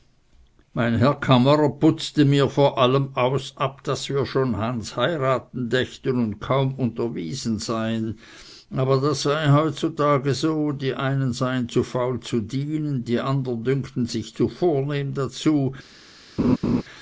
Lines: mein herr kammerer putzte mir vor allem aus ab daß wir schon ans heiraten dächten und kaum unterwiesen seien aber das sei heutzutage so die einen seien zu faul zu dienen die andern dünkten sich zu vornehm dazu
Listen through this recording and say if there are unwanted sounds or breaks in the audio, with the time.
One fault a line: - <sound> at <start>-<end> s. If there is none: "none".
- laugh at 16.4-16.8 s